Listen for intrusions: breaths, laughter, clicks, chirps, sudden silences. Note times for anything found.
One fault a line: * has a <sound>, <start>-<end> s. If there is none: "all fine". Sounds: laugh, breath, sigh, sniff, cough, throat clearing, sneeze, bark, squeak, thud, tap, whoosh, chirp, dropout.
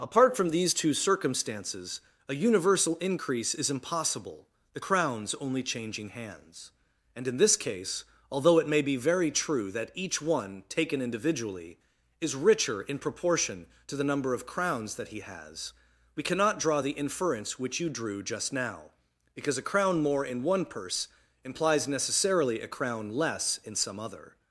all fine